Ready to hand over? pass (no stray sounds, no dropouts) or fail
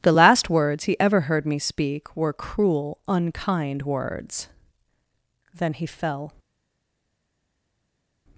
pass